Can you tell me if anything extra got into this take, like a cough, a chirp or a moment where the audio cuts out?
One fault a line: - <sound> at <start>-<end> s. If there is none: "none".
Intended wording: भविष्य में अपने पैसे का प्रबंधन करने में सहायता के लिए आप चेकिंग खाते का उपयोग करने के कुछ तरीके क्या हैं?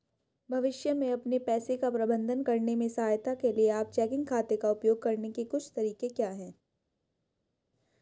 none